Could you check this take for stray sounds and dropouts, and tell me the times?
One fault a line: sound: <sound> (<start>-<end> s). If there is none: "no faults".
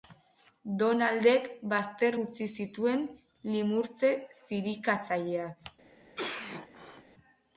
sound: cough (6.2-7.0 s)